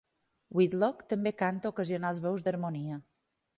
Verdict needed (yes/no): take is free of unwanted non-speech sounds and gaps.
yes